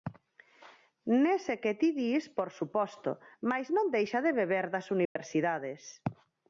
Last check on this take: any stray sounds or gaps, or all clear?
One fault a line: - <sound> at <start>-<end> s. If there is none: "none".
- dropout at 5.1-5.2 s